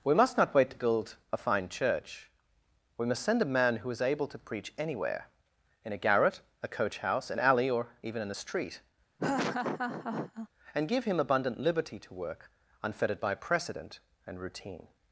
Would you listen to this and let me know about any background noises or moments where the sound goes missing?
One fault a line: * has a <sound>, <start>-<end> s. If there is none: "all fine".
* has a laugh, 9.2-10.5 s